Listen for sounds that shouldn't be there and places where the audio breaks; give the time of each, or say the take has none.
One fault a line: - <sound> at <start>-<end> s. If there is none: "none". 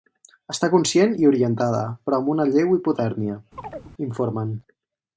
- chirp at 3.6-3.9 s